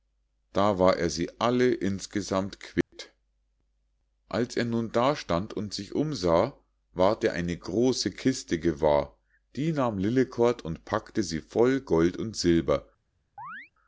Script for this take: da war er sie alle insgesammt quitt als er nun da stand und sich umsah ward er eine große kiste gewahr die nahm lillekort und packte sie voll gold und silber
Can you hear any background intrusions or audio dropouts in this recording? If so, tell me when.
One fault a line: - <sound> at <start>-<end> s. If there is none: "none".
- dropout at 2.8-2.9 s
- chirp at 13.4-13.7 s